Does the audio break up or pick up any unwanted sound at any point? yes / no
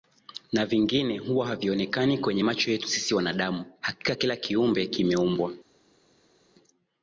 no